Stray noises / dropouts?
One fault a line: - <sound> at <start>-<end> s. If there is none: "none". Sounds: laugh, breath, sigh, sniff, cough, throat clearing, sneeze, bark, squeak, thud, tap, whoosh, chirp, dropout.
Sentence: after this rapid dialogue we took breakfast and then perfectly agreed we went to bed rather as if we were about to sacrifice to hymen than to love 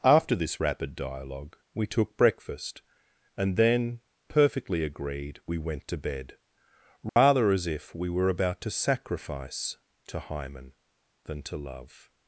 - dropout at 7.1-7.2 s